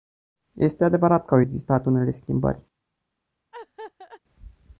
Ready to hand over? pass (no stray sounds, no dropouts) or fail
fail